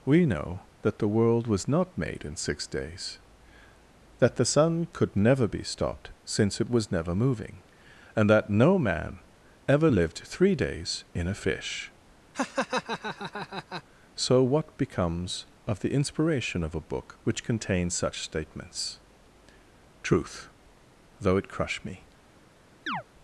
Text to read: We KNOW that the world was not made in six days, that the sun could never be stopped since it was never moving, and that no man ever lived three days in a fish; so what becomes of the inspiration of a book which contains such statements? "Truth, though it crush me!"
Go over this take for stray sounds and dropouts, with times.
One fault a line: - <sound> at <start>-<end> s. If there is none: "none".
- laugh at 12.3-13.8 s
- chirp at 22.9-23.0 s